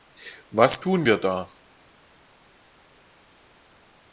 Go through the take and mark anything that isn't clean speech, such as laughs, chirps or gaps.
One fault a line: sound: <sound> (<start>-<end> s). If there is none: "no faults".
no faults